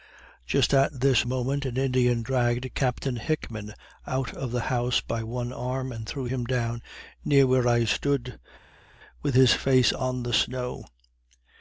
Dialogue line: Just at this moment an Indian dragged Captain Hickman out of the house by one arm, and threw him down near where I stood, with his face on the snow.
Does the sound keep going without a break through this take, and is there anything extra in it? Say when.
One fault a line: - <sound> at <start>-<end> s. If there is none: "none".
none